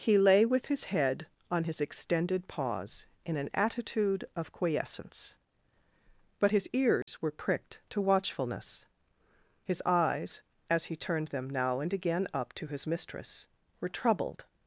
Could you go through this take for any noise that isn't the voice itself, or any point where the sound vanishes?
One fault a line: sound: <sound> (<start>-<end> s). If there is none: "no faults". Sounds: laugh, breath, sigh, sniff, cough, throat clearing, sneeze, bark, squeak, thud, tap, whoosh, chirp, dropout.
sound: dropout (7.0-7.1 s)